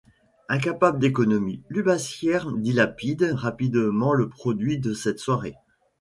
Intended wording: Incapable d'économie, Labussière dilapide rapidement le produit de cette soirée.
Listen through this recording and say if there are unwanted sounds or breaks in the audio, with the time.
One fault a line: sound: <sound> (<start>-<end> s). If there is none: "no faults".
no faults